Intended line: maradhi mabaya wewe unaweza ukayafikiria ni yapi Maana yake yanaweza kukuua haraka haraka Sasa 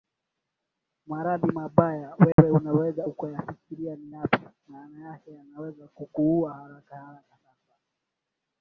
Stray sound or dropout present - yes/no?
yes